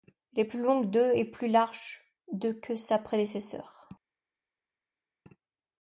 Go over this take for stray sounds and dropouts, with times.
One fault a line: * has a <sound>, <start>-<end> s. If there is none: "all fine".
all fine